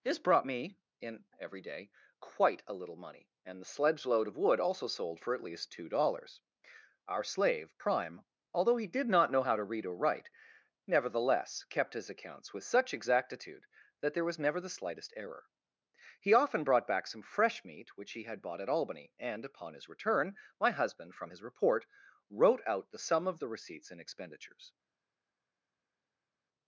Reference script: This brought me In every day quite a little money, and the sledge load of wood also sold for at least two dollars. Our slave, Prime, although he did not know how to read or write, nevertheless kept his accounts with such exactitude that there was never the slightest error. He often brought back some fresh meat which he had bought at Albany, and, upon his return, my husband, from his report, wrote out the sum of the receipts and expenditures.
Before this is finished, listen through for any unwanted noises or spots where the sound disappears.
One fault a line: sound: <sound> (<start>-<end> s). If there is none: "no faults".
no faults